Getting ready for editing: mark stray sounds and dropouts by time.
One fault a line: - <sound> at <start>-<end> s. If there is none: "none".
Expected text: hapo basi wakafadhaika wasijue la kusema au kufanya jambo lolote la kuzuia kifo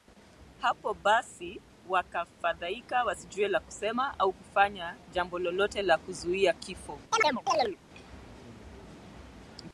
- chirp at 7.1-7.8 s